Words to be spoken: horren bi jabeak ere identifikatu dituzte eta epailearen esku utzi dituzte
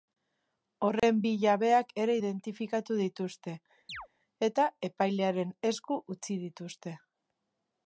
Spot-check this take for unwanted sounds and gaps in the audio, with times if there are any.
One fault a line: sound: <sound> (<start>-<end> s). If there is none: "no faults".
sound: dropout (1.0-1.0 s)
sound: chirp (3.9-4.1 s)